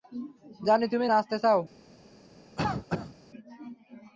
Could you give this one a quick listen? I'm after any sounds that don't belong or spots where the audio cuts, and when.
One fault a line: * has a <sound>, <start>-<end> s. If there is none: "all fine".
* has a cough, 2.6-3.2 s